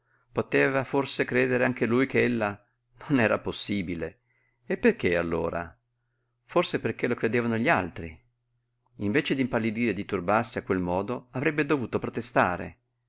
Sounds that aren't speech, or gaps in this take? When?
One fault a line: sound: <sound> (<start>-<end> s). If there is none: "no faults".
no faults